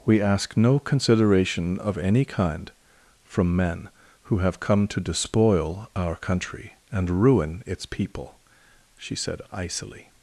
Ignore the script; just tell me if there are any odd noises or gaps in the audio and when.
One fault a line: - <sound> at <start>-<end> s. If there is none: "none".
none